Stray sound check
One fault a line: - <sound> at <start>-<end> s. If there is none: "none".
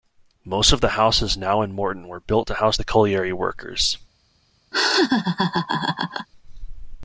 - laugh at 4.7-6.3 s